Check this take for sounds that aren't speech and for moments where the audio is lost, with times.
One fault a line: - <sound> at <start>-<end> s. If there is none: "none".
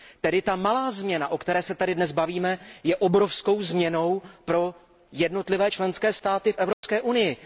- dropout at 6.7-6.8 s